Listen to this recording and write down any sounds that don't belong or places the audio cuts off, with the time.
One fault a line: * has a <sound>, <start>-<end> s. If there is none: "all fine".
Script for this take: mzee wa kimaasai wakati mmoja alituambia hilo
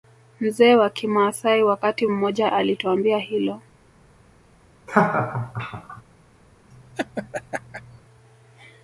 * has a laugh, 4.9-6.0 s
* has a laugh, 6.7-8.0 s